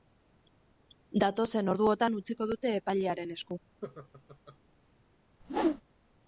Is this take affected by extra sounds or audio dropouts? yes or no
yes